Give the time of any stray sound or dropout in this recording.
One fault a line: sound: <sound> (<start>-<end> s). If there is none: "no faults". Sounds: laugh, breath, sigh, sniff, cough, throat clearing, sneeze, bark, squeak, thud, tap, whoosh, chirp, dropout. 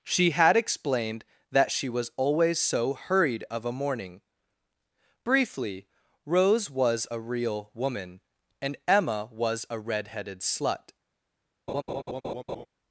sound: laugh (11.7-12.7 s)